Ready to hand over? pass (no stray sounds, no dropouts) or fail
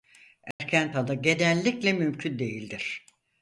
fail